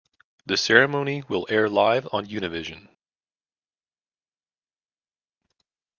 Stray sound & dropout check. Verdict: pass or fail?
pass